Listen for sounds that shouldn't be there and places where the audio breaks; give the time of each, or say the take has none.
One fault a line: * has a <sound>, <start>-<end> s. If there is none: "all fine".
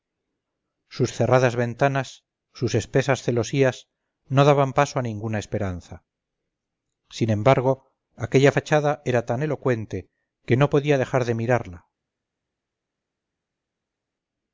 all fine